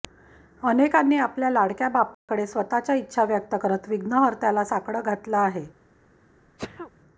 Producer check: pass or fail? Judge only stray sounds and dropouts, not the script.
fail